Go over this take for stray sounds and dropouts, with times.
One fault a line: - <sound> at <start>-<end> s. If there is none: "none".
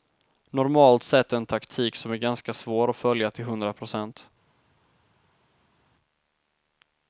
none